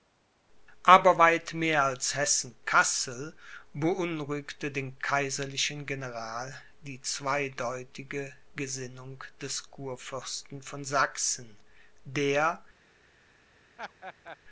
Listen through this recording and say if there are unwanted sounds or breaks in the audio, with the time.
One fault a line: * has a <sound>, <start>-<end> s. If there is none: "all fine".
* has a laugh, 13.8-14.4 s